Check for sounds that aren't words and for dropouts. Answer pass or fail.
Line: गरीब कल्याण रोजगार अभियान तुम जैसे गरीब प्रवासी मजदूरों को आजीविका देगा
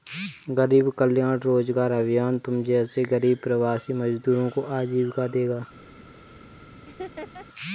fail